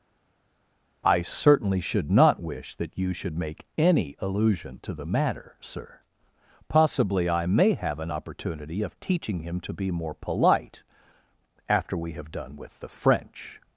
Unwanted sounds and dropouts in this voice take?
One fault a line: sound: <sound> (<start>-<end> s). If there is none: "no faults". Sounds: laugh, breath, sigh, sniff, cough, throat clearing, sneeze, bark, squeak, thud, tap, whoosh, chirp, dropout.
no faults